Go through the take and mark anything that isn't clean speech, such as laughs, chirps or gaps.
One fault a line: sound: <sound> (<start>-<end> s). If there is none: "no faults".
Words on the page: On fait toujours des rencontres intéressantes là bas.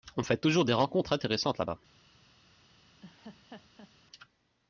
sound: laugh (3.0-3.9 s)